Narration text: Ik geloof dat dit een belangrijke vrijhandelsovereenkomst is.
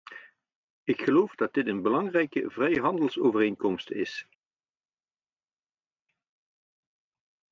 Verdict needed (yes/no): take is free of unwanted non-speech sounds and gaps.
yes